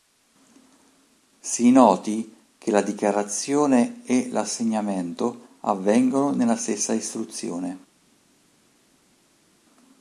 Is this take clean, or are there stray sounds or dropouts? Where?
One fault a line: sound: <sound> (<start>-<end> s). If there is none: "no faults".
no faults